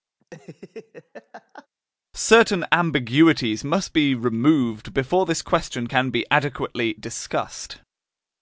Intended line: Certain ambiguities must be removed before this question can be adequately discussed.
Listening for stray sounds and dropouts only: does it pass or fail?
fail